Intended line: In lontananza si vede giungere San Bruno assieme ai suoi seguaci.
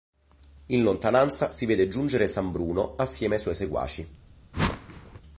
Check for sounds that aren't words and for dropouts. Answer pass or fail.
fail